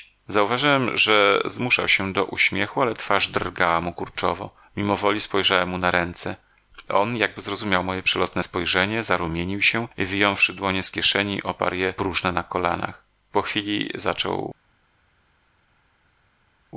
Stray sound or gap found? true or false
false